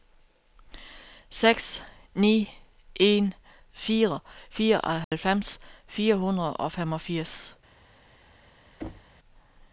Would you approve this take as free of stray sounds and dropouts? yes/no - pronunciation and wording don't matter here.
no